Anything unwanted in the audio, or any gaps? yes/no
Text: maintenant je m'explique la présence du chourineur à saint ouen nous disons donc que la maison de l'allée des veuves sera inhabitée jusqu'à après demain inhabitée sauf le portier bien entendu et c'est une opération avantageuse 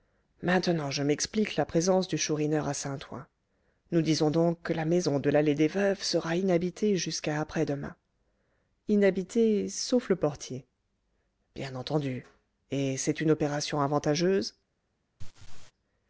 yes